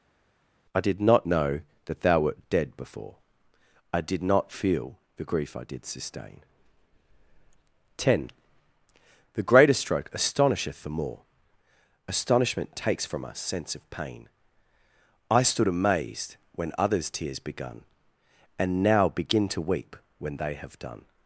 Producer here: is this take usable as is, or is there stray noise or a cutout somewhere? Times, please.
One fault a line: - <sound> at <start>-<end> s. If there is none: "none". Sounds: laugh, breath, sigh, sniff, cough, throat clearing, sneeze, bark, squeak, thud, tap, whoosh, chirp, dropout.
none